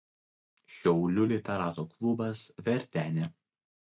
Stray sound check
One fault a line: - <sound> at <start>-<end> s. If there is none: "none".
none